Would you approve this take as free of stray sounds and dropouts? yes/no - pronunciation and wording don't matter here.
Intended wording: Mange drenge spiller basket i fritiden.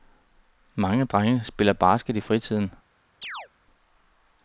no